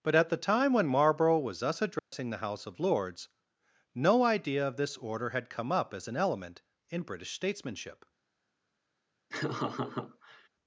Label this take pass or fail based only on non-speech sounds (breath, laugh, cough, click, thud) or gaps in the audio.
fail